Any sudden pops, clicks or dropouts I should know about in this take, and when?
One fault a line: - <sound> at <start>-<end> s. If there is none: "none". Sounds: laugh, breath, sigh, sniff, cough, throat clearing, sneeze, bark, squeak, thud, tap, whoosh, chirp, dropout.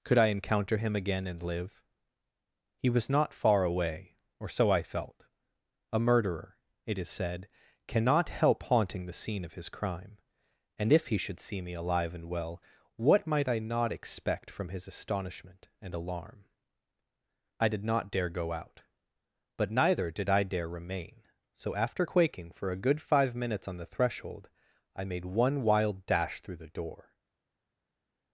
none